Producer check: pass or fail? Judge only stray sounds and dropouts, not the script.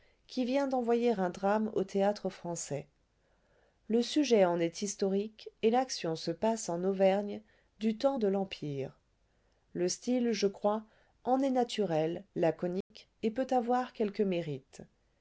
fail